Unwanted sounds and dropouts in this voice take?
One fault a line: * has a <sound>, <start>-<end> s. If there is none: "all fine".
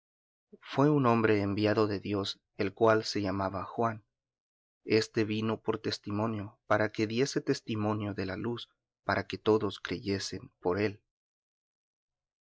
all fine